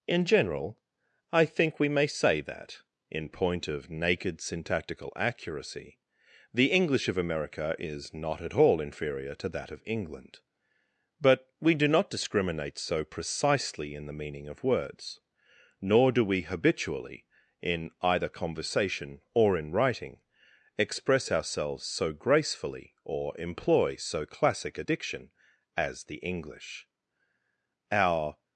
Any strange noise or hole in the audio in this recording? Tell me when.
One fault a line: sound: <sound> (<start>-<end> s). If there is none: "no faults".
no faults